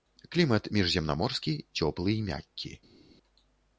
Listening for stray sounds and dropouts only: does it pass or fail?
pass